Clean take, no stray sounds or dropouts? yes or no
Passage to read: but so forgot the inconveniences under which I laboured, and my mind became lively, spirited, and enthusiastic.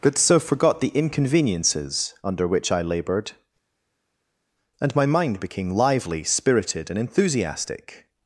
yes